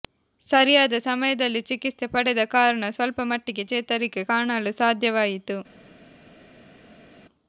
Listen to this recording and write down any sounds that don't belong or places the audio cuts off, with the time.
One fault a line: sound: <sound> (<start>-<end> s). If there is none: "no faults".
no faults